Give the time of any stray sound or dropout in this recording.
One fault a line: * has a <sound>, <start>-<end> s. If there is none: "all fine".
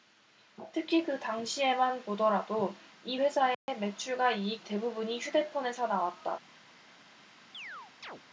* has a dropout, 3.5-3.7 s
* has a chirp, 7.5-8.2 s